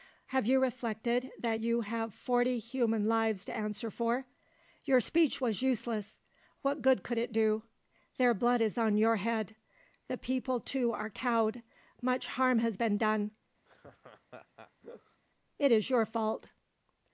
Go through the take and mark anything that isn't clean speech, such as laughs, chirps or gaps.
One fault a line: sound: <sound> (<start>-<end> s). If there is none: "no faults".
sound: laugh (13.7-15.2 s)